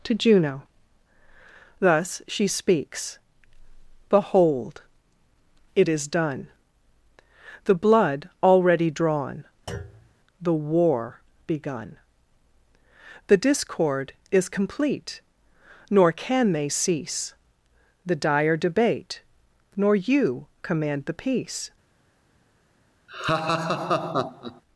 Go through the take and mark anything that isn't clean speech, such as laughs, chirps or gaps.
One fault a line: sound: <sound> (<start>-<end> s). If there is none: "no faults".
sound: thud (9.7-10.1 s)
sound: laugh (23.1-24.6 s)